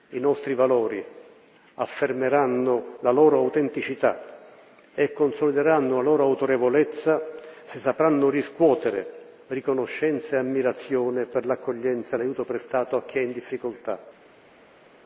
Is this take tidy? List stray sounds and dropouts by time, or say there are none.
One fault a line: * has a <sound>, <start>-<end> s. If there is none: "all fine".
all fine